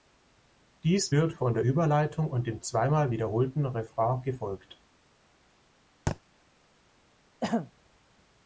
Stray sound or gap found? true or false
true